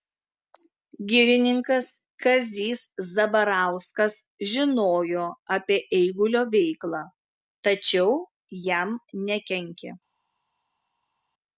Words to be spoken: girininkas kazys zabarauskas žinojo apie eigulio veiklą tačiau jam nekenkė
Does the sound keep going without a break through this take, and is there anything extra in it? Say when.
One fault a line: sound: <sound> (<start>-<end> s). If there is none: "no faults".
no faults